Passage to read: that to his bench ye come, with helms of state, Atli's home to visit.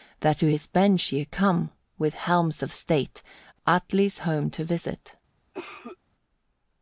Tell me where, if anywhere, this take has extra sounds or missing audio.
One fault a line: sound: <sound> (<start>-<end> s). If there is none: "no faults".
sound: cough (5.5-6.0 s)